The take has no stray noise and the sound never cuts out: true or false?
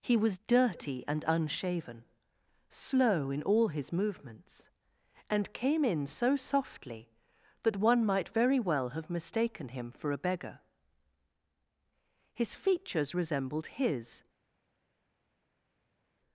true